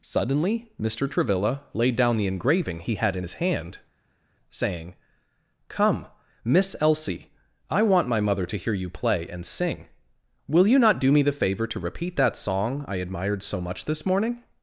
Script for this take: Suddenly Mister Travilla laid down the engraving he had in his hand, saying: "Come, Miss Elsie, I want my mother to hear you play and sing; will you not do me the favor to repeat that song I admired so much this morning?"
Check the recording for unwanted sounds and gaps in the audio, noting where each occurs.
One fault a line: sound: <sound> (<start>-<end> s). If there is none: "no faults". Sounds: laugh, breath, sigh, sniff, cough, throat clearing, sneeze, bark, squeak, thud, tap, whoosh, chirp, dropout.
no faults